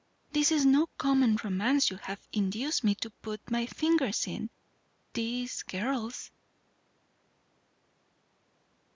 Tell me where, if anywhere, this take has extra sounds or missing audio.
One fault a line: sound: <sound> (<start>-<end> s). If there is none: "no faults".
no faults